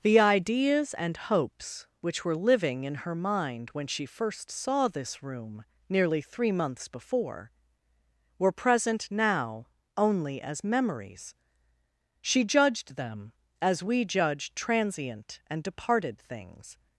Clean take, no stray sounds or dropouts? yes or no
yes